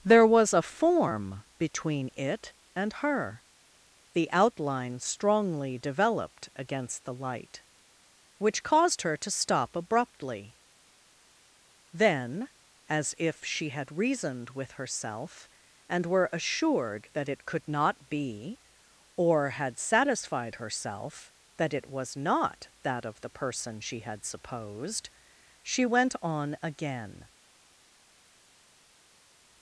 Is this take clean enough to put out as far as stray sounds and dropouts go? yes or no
yes